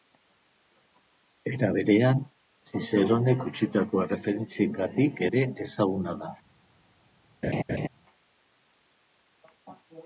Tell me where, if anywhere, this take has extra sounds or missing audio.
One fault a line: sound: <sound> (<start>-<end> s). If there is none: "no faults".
sound: laugh (7.4-7.9 s)